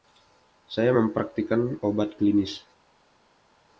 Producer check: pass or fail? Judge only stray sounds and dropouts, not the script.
pass